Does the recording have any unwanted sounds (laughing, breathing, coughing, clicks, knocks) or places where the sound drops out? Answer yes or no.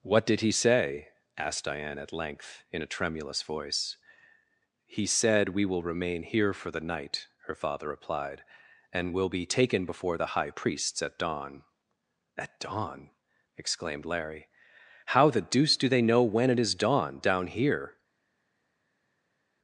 no